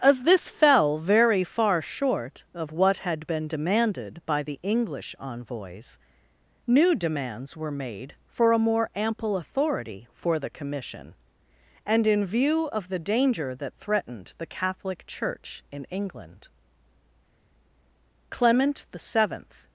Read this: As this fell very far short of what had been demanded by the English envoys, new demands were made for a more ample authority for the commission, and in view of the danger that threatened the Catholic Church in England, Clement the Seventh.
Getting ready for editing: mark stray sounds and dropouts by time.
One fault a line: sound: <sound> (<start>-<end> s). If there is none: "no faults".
no faults